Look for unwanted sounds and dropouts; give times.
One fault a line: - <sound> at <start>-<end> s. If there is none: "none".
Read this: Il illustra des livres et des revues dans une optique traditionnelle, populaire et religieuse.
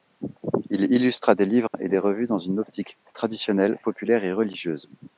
- dropout at 1.7-1.7 s